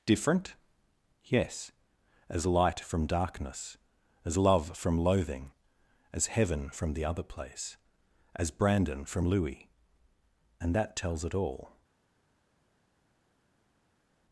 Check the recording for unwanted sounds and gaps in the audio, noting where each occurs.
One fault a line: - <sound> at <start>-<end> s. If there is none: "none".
none